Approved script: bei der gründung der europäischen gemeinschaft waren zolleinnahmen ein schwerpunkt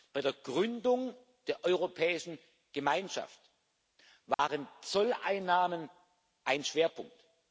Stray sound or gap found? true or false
true